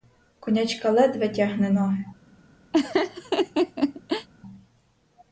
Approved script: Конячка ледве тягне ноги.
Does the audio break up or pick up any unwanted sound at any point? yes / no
yes